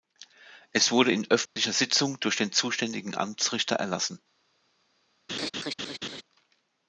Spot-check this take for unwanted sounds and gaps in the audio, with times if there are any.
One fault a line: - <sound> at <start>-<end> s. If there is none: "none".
- dropout at 1.5-1.6 s
- laugh at 5.3-6.2 s